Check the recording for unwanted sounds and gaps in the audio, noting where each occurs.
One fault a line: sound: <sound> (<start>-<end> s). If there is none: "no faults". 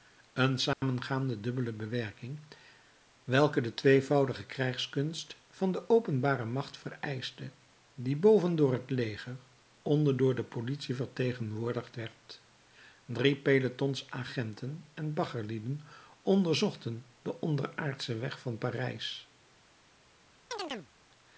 sound: dropout (0.7-0.8 s)
sound: chirp (20.5-20.9 s)